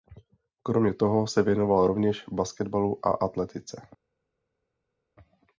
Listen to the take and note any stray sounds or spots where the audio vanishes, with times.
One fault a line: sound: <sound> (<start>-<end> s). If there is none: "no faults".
no faults